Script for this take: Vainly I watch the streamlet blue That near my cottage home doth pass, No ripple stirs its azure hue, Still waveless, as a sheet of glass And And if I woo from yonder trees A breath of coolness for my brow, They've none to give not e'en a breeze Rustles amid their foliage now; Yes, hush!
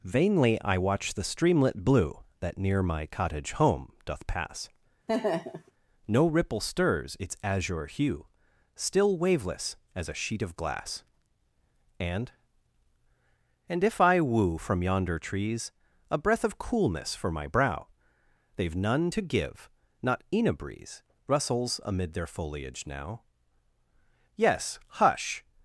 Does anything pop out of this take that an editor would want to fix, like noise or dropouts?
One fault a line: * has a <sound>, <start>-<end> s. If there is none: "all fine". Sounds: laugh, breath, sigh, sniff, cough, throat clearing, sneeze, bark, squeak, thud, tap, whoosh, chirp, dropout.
* has a laugh, 5.1-5.7 s